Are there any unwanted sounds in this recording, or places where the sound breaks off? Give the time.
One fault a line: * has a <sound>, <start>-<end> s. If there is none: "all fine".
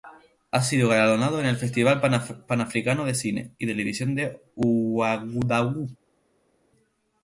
all fine